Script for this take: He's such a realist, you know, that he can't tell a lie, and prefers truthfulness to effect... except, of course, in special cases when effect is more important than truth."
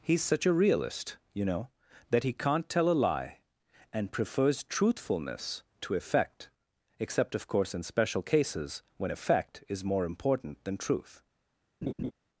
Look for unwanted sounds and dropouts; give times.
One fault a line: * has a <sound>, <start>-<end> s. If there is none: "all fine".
* has a laugh, 11.8-12.1 s